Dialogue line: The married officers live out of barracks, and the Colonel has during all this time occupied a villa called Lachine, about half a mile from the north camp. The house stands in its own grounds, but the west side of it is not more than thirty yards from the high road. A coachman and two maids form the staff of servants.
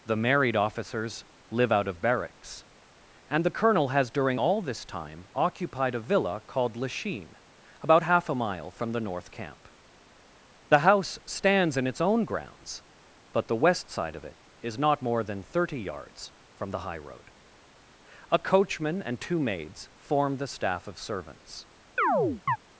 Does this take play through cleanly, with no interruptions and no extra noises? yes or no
no